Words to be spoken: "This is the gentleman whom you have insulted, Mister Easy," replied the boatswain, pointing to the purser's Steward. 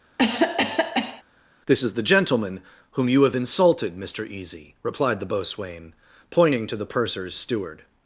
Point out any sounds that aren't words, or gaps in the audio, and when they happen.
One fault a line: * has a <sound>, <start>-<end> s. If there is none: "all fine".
* has a cough, 0.2-1.2 s